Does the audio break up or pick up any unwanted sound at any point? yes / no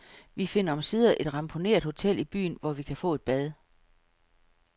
no